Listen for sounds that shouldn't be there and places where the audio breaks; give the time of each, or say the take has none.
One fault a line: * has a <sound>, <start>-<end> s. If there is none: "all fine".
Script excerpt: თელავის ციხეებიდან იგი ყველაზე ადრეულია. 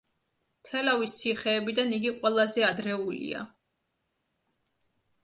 all fine